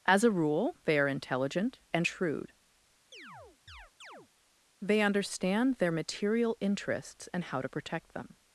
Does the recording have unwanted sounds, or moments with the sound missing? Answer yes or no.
yes